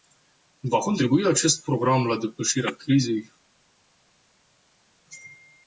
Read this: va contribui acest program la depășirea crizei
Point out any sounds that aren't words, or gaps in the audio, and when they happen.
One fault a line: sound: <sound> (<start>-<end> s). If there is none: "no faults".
no faults